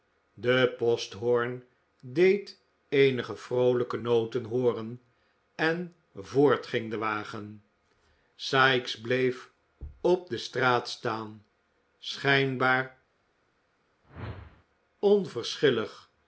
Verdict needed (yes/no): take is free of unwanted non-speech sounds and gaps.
no